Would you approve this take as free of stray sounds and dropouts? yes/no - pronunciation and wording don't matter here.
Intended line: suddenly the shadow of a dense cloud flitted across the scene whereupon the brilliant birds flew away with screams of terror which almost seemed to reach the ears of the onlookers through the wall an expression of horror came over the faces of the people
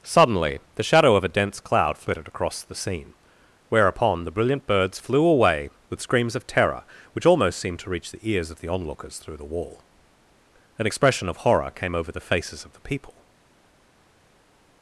yes